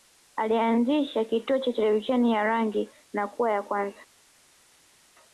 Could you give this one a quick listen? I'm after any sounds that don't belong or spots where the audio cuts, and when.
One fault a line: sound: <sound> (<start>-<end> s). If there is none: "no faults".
no faults